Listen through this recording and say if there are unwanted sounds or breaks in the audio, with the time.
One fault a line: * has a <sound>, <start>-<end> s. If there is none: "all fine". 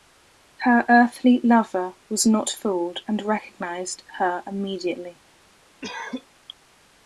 * has a cough, 5.8-6.3 s